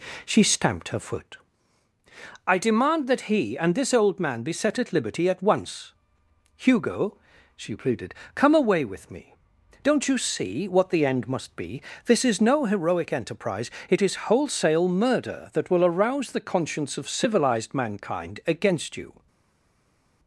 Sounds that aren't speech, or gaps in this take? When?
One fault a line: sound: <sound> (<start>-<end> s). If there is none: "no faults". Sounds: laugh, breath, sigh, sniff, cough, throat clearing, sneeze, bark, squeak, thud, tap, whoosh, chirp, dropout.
no faults